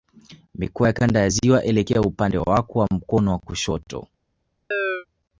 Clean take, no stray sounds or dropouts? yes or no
no